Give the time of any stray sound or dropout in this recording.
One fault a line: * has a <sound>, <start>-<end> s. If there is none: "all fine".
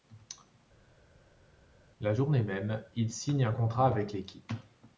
all fine